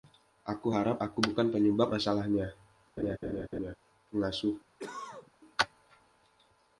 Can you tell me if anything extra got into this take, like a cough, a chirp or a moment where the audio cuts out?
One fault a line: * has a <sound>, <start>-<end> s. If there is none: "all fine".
* has a laugh, 3.0-3.8 s
* has a cough, 4.8-5.3 s